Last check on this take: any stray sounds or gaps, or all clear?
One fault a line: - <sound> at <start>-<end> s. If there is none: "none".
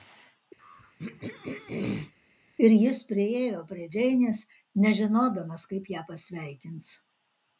- throat clearing at 0.6-2.1 s